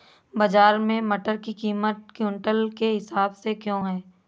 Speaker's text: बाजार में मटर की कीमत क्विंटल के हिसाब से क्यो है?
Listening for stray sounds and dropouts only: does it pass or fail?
pass